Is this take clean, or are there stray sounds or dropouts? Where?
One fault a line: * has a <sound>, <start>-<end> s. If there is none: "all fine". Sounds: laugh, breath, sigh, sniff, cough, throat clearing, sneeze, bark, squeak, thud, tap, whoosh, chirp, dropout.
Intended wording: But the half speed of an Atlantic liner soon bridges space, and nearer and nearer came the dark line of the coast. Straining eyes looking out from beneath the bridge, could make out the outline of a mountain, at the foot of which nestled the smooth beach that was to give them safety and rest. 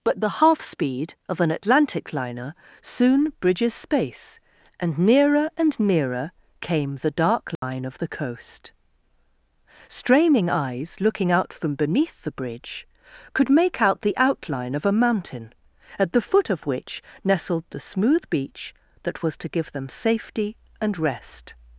* has a dropout, 7.6-7.6 s